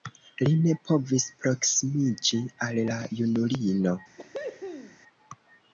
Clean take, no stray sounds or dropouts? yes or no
no